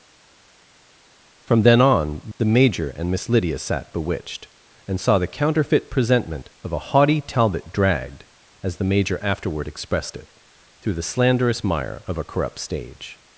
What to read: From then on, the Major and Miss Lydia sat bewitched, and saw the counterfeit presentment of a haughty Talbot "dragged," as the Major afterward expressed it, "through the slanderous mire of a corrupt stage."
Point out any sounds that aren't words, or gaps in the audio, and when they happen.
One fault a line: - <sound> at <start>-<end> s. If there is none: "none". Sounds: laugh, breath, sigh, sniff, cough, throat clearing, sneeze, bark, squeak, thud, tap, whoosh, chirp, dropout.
none